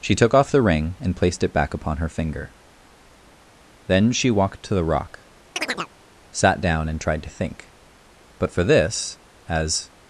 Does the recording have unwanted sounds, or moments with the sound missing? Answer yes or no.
yes